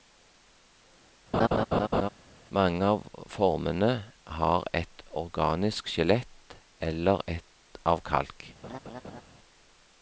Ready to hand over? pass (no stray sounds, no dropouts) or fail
fail